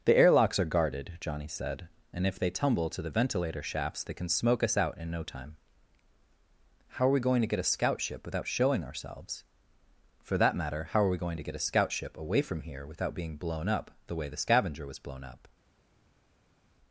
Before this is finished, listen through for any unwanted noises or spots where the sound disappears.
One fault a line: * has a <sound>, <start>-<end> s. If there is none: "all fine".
all fine